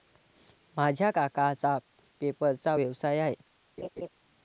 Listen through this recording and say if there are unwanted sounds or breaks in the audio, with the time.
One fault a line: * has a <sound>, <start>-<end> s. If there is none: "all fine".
* has a laugh, 3.8-4.1 s